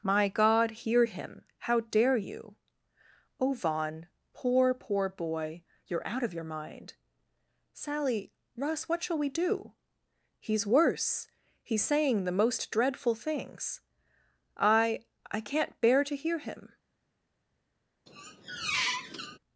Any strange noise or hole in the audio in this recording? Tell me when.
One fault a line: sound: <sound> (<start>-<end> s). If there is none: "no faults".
sound: squeak (18.1-19.4 s)